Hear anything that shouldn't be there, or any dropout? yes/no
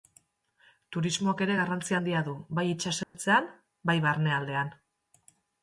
yes